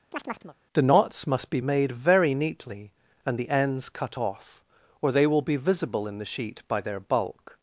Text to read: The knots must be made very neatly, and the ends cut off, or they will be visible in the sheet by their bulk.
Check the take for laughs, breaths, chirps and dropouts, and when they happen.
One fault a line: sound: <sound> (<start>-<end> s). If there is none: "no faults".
sound: chirp (0.1-0.6 s)